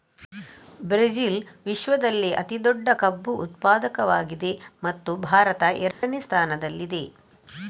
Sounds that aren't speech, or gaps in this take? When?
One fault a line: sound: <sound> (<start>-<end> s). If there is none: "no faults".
sound: dropout (5.9-6.0 s)